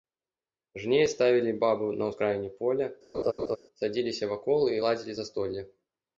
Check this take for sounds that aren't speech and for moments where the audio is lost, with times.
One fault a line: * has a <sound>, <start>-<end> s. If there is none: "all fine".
* has a laugh, 3.1-3.6 s